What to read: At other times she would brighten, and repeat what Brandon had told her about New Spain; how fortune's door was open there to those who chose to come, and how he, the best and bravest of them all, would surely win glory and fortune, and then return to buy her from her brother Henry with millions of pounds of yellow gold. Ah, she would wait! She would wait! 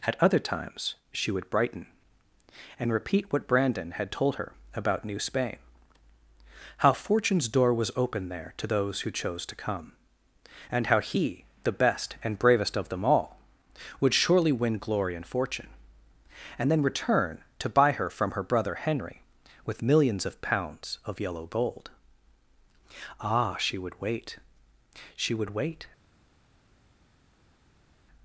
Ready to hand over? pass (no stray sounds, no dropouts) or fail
pass